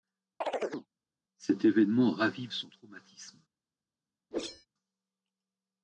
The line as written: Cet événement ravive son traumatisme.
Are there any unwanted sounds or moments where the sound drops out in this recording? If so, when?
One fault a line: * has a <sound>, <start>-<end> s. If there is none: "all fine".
* has a chirp, 0.4-0.9 s
* has a whoosh, 4.3-4.7 s